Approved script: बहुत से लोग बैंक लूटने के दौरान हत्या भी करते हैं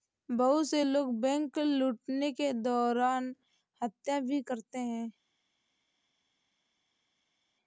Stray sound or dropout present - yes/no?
no